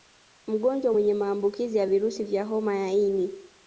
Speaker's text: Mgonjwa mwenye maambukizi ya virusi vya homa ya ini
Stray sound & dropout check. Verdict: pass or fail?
pass